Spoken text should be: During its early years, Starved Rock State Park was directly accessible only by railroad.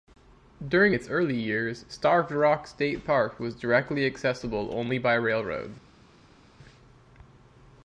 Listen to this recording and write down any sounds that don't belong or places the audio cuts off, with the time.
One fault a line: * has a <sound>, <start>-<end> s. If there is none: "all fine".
all fine